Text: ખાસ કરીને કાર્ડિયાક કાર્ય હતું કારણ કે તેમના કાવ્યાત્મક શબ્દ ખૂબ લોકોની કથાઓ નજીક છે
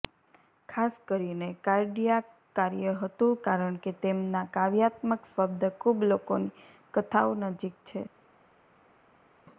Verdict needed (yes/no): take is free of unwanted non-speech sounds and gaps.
yes